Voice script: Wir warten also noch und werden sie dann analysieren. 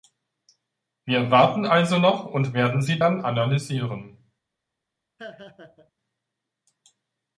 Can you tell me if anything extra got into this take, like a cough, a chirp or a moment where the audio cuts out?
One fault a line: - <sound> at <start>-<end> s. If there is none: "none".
- laugh at 5.2-5.9 s